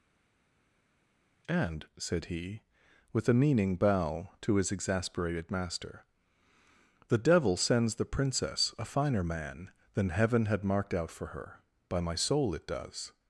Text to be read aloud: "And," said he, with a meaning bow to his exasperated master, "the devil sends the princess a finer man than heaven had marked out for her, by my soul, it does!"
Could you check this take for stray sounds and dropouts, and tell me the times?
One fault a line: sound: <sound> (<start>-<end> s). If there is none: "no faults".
no faults